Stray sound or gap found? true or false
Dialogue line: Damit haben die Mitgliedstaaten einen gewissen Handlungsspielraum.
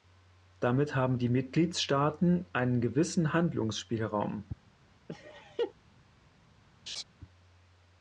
true